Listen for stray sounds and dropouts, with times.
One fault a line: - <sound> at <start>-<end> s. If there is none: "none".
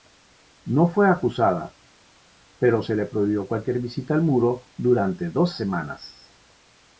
none